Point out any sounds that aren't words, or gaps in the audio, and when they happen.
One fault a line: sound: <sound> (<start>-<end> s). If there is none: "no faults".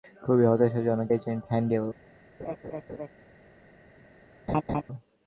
sound: laugh (2.4-3.1 s)
sound: laugh (4.5-4.8 s)